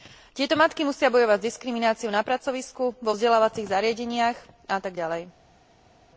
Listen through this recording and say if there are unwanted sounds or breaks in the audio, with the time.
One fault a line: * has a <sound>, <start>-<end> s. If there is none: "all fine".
all fine